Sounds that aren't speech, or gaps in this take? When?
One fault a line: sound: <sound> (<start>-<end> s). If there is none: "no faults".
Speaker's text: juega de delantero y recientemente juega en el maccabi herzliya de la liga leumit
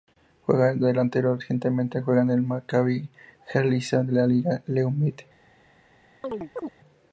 sound: chirp (6.2-6.7 s)